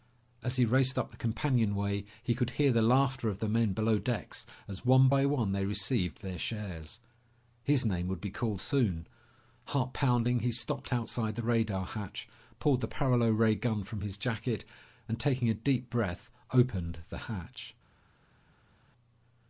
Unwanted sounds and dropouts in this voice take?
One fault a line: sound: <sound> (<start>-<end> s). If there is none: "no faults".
no faults